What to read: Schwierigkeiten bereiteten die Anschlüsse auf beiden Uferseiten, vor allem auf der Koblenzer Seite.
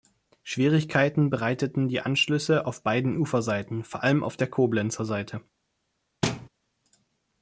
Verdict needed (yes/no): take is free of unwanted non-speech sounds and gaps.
no